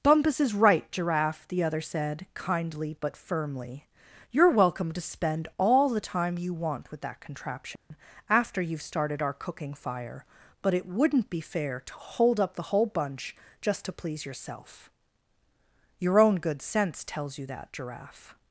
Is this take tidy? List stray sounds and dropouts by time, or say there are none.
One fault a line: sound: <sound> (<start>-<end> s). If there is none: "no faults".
sound: dropout (7.8-7.9 s)